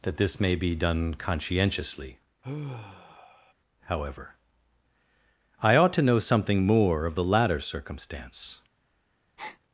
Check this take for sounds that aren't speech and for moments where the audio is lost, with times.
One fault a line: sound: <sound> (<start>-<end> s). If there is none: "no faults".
sound: sigh (2.4-3.5 s)
sound: breath (9.4-9.6 s)